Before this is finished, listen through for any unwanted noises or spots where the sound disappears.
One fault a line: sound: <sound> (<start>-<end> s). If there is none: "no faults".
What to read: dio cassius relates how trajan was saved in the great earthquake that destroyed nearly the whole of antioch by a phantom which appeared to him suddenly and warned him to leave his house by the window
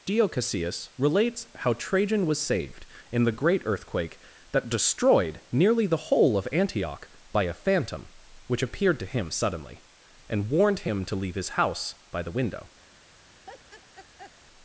sound: laugh (13.4-14.3 s)